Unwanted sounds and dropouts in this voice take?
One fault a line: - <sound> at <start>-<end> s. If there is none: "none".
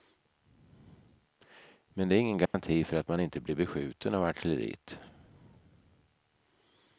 - dropout at 2.5-2.5 s